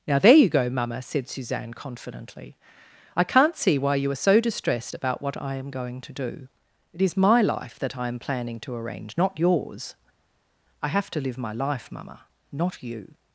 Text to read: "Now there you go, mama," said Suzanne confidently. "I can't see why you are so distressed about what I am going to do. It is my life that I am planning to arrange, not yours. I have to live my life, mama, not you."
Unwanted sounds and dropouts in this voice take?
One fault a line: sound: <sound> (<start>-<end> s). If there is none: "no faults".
no faults